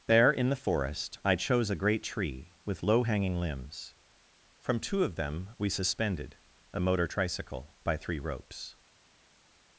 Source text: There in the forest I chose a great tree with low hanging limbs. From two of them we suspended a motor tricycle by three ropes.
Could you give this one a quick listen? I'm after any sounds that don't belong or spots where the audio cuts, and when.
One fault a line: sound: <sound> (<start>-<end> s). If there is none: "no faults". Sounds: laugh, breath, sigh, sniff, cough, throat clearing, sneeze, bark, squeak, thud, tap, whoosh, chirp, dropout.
no faults